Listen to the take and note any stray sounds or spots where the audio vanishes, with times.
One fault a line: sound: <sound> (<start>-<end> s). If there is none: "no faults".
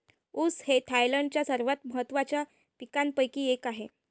no faults